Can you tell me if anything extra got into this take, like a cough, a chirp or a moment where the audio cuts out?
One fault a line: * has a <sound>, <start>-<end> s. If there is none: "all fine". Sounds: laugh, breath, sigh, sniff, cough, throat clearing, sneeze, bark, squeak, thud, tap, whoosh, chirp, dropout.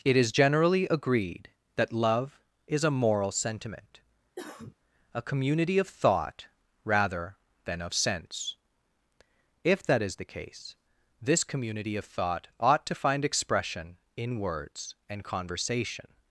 * has a cough, 4.4-4.8 s